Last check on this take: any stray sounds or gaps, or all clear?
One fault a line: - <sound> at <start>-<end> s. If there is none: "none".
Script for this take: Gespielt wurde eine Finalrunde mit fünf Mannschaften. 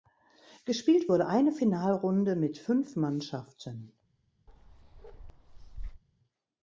- bark at 4.5-6.0 s